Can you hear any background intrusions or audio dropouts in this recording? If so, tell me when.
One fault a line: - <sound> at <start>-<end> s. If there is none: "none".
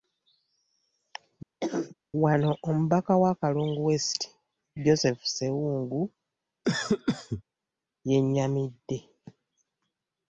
- cough at 1.6-2.0 s
- cough at 6.6-7.4 s